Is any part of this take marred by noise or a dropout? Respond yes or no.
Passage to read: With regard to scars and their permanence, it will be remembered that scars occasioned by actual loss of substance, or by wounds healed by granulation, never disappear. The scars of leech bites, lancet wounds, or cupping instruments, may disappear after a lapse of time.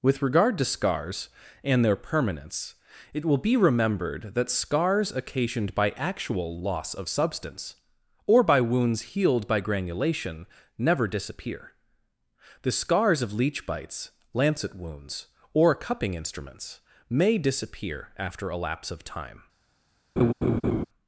yes